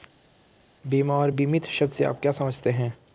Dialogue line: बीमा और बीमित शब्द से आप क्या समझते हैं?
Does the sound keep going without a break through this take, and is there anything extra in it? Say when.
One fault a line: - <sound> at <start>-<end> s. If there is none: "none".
none